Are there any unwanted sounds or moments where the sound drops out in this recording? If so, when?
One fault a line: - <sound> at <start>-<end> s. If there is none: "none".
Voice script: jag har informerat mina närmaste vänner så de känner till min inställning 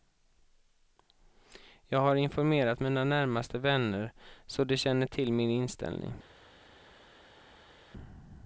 none